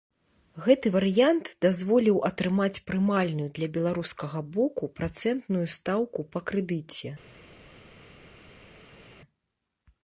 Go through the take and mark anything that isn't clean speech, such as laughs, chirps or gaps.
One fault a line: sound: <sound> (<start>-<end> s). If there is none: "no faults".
no faults